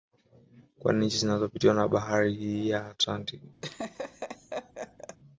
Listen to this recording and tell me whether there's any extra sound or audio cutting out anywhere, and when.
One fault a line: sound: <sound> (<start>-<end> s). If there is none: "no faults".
sound: laugh (3.6-5.2 s)